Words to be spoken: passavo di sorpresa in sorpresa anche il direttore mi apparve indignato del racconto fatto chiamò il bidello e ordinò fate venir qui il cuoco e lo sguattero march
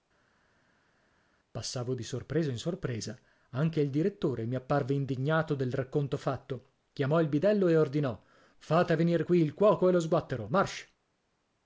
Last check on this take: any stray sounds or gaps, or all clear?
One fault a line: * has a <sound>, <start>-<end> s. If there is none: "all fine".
all fine